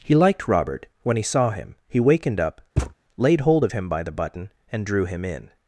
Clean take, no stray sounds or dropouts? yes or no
no